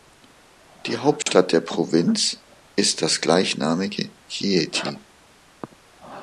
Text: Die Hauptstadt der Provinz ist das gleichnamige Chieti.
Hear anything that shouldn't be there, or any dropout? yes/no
yes